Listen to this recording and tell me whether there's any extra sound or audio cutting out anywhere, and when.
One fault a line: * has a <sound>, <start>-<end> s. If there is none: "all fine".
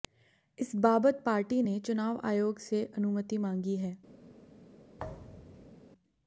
* has a thud, 5.0-5.8 s